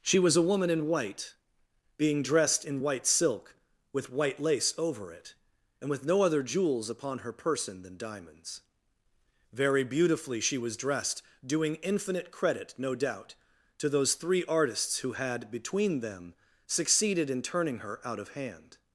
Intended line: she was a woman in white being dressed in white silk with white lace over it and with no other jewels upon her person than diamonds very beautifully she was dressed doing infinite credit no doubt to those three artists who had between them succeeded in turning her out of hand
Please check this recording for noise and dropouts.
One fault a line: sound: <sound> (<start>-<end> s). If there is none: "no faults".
no faults